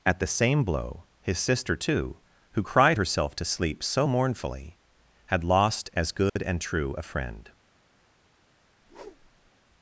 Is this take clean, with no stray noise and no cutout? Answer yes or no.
no